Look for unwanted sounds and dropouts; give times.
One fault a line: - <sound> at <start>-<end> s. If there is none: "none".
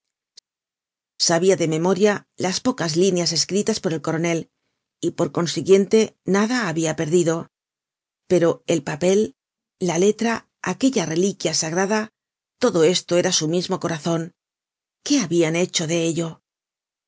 none